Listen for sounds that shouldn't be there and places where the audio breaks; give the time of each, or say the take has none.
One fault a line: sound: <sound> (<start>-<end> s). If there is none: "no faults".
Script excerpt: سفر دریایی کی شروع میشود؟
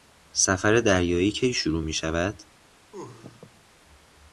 sound: sneeze (2.9-3.6 s)